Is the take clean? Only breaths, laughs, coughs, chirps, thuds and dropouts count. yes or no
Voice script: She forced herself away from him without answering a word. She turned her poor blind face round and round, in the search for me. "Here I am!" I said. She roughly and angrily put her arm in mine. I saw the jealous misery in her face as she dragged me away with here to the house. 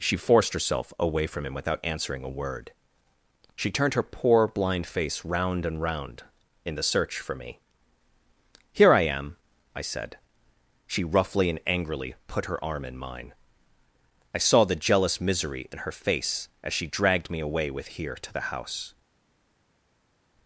yes